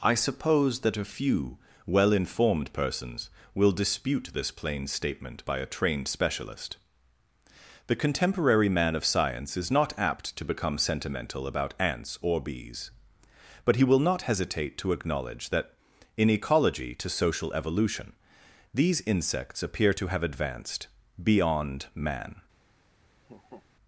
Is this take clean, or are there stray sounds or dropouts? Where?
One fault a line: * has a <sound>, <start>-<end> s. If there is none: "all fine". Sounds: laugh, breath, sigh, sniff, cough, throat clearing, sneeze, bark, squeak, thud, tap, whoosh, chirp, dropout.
* has a laugh, 23.2-23.7 s